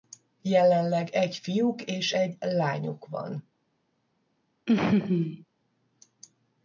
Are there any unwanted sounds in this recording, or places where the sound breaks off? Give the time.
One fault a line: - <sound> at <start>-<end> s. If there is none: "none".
- laugh at 4.7-5.4 s